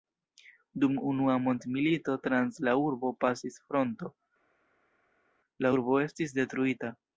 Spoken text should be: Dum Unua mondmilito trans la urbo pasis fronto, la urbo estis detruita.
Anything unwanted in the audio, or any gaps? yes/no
no